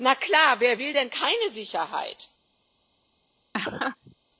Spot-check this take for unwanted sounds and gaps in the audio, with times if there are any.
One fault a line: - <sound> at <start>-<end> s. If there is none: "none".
- laugh at 3.5-4.2 s